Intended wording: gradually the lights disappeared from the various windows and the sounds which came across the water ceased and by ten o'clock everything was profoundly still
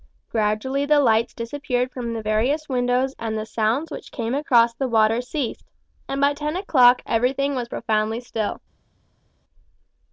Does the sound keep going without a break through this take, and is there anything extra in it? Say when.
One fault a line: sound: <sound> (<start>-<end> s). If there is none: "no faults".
no faults